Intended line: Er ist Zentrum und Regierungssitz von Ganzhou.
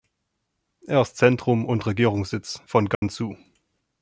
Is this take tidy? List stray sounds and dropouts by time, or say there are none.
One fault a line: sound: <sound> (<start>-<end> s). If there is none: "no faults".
sound: dropout (2.9-3.0 s)